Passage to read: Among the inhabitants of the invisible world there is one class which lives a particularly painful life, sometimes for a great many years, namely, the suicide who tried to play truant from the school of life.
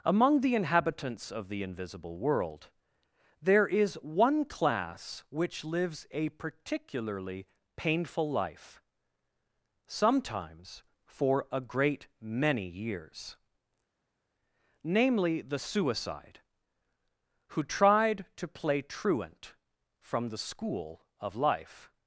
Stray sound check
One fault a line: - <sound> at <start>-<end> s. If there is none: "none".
none